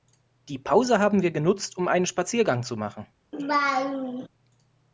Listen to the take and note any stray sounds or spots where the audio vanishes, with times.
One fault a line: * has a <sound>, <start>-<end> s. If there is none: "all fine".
* has a laugh, 3.3-4.3 s